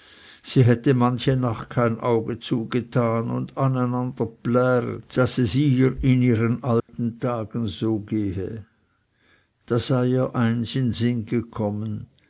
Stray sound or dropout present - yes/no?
yes